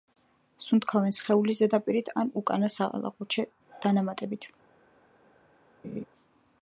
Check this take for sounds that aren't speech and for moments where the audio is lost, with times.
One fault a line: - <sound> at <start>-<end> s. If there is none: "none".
- laugh at 5.8-6.1 s